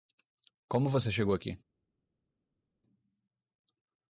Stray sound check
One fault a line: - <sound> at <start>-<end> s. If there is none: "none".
none